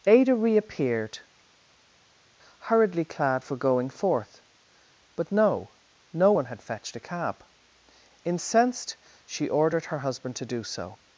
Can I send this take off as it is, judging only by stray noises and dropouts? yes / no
yes